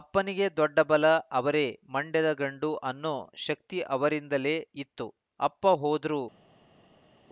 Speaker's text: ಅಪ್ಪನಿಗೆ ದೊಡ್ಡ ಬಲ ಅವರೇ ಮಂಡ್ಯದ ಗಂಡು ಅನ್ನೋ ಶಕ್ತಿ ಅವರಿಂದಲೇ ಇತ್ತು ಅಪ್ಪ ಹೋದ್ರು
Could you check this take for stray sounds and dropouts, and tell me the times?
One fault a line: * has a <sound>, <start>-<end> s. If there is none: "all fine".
all fine